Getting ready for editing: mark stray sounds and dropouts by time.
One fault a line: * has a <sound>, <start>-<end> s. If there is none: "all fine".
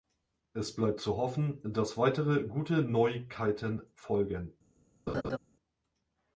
* has a laugh, 5.1-5.4 s